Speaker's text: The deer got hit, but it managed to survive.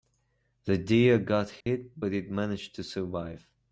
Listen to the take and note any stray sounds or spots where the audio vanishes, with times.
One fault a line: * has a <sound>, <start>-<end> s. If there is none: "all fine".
* has a dropout, 1.6-1.7 s